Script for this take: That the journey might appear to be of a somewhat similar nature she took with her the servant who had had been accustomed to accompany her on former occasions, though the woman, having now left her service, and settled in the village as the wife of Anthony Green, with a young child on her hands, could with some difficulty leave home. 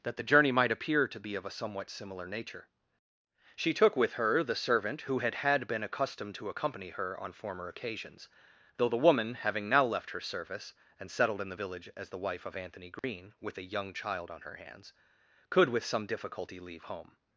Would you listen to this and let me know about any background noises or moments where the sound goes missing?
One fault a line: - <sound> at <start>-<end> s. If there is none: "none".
- dropout at 13.0-13.0 s